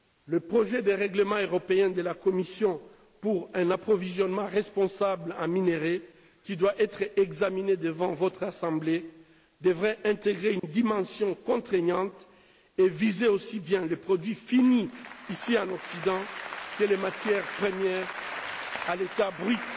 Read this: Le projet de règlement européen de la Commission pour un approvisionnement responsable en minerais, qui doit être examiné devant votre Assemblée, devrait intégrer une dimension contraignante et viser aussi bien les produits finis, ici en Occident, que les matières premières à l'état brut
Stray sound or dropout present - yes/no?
yes